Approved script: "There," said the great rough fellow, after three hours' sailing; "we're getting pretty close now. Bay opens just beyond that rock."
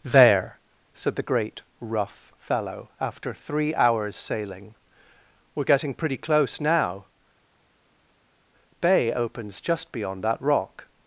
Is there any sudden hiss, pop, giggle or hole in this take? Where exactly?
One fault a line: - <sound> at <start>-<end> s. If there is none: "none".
none